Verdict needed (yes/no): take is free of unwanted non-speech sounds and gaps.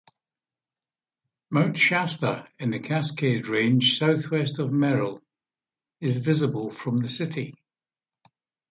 yes